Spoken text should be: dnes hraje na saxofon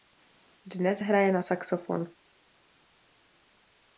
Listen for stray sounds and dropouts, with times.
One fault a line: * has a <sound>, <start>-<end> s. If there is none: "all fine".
all fine